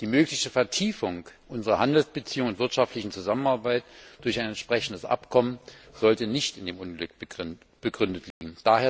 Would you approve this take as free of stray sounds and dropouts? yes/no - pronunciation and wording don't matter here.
no